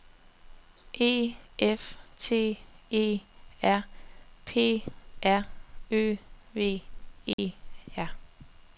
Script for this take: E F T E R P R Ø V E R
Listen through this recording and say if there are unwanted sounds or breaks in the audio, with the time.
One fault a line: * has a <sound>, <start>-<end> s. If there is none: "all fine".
* has a dropout, 7.3-7.4 s